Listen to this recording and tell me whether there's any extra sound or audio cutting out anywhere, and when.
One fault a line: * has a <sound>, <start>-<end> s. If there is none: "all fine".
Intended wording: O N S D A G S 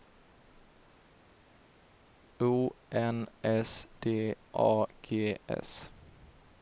all fine